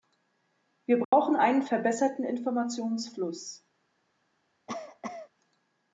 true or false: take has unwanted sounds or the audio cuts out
true